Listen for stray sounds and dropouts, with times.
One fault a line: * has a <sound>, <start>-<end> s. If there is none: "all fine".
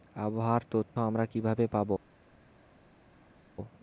all fine